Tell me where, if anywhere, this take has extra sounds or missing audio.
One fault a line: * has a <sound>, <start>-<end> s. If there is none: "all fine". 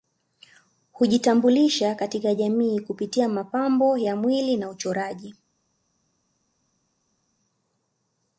all fine